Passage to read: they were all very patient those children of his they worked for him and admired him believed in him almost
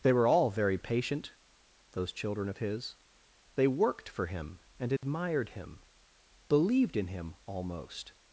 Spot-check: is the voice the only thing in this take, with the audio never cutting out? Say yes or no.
no